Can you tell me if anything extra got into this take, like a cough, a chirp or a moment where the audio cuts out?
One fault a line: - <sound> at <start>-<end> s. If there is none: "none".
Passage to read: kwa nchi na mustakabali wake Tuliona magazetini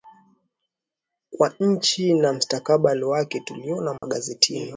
- dropout at 4.0-4.0 s